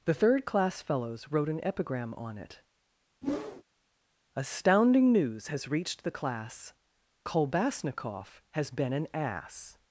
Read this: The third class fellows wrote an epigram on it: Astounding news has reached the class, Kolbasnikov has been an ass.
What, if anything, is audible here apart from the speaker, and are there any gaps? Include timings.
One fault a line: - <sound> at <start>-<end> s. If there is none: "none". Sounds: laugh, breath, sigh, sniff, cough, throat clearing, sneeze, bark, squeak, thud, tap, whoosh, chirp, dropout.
- whoosh at 3.2-3.6 s